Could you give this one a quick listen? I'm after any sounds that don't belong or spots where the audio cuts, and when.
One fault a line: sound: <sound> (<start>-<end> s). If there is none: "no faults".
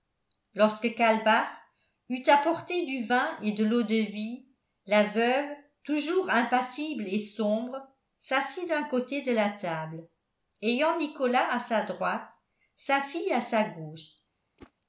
sound: whoosh (14.6-14.7 s)